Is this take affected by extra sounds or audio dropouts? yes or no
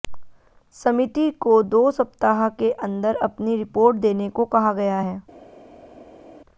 no